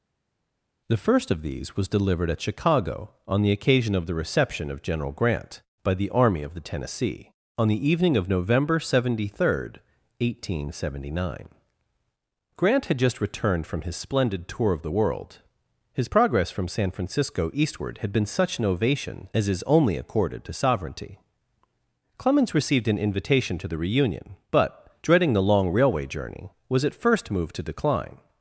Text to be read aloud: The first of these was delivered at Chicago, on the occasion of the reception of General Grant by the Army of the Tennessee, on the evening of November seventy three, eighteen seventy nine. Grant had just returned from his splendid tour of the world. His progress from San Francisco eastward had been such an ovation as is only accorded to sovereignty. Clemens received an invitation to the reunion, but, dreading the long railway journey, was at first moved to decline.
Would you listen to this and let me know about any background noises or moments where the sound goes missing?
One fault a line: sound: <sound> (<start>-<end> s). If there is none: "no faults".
no faults